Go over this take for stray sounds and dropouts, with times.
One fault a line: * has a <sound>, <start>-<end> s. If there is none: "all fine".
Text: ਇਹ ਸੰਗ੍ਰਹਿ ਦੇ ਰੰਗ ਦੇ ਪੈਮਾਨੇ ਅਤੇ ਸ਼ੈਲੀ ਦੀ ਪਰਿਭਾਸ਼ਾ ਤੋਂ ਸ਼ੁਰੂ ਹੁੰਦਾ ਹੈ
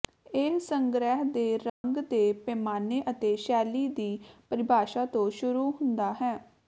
* has a dropout, 1.7-1.8 s